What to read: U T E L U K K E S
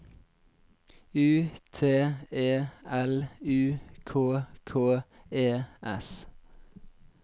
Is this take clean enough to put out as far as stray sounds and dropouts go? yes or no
yes